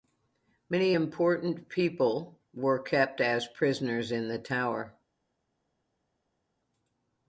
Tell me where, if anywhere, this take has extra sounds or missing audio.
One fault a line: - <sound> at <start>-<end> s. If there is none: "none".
none